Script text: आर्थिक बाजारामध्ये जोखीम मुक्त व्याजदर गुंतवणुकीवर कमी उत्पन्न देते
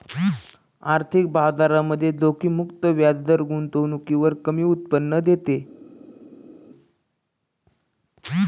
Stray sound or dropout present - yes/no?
no